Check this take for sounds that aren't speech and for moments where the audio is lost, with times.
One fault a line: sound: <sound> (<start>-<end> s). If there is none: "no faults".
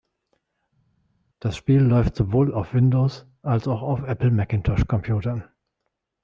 no faults